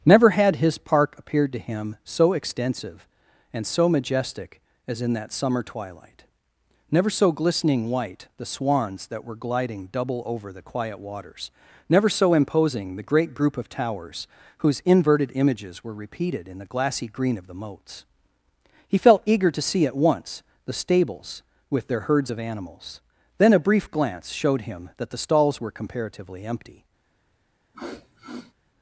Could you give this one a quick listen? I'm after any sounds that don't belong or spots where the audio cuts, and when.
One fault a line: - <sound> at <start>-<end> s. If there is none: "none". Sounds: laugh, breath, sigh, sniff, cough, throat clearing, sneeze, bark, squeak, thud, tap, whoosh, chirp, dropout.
- sniff at 27.7-28.5 s